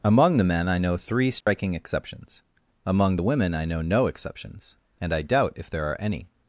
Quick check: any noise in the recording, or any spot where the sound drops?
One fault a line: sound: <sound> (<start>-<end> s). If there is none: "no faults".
sound: dropout (1.4-1.5 s)